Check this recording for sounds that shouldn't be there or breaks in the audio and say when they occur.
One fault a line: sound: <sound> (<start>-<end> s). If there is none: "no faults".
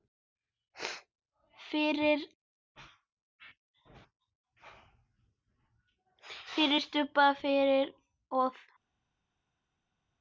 no faults